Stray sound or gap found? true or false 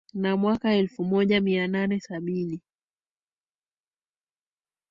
false